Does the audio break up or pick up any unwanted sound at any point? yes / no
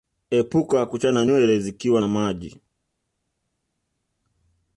no